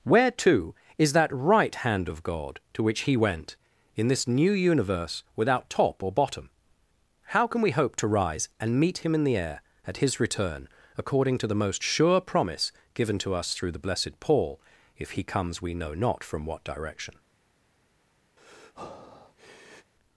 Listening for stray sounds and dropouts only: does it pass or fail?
fail